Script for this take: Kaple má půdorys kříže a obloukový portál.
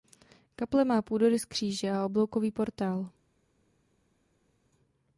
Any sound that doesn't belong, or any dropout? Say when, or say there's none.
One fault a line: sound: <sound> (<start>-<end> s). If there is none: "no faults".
no faults